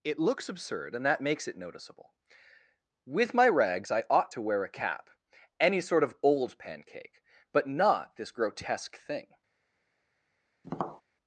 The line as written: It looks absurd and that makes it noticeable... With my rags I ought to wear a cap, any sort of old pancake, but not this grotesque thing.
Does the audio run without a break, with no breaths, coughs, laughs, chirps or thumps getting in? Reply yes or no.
no